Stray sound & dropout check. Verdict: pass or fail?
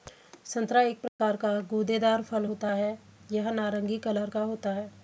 fail